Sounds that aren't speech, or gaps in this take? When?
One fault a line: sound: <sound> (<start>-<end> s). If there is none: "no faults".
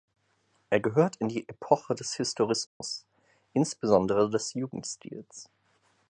sound: dropout (2.7-2.8 s)